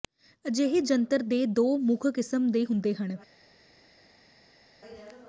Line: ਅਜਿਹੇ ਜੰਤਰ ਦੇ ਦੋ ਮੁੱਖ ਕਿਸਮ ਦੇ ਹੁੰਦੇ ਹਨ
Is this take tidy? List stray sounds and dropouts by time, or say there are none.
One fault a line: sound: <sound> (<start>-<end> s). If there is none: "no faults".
no faults